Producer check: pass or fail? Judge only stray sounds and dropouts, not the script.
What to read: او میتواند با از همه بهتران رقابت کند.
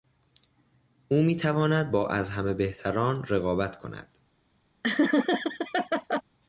fail